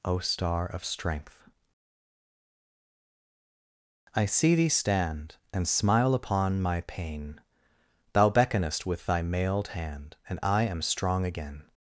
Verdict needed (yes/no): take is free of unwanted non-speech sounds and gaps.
yes